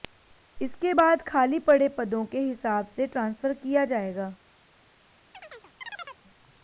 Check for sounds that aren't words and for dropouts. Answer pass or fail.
fail